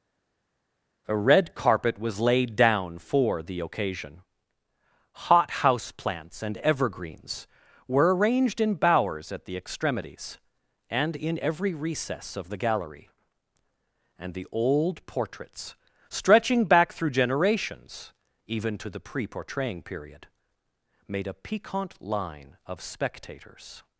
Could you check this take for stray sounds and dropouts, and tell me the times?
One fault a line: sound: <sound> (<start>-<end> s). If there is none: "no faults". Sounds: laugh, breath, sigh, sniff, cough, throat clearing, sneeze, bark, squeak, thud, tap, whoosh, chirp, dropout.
no faults